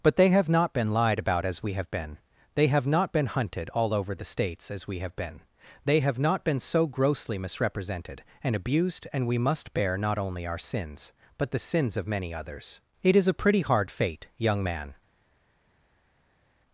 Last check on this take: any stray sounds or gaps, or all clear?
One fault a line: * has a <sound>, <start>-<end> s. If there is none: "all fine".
all fine